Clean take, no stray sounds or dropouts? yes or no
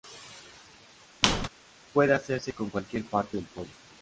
no